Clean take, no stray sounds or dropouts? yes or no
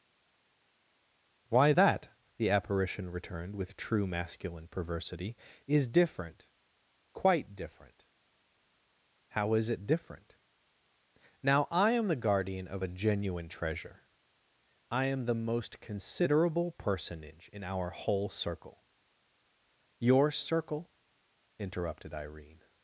yes